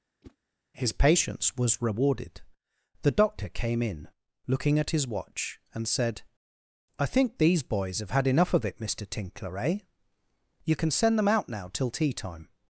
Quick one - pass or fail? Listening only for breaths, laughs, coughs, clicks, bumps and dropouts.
fail